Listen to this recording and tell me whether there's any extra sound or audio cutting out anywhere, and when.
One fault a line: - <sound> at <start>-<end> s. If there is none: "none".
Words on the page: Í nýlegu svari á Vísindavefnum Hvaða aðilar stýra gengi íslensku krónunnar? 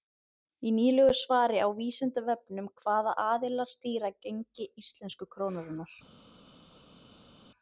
none